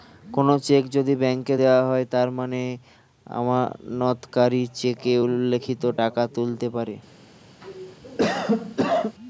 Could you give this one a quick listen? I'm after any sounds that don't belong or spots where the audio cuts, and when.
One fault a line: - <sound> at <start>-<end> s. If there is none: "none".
- cough at 7.6-9.2 s